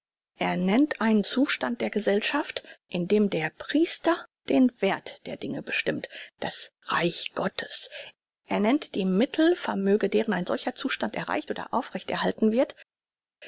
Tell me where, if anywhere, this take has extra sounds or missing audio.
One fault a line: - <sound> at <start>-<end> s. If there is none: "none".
none